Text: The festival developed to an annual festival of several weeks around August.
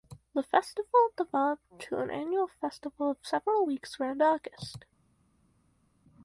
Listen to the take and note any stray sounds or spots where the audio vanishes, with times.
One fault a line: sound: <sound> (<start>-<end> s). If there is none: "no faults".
no faults